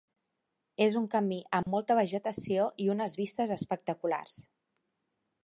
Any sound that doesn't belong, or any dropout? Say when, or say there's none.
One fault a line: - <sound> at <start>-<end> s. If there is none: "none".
- dropout at 1.6-1.7 s